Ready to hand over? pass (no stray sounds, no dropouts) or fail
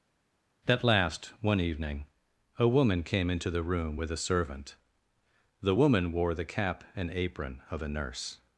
pass